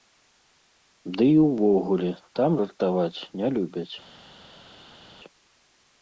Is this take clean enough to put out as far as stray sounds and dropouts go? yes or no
yes